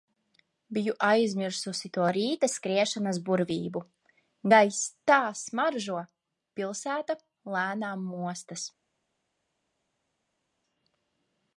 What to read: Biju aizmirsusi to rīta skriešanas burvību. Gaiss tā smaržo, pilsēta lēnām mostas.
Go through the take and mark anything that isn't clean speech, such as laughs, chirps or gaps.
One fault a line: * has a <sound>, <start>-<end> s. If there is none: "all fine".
all fine